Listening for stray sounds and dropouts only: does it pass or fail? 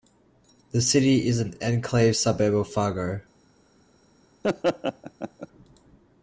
fail